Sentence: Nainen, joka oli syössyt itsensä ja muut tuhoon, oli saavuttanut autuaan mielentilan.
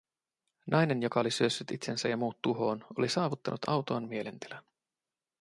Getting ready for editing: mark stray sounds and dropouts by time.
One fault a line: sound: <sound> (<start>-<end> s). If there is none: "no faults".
no faults